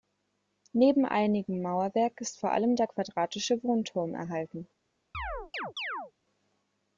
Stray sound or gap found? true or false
true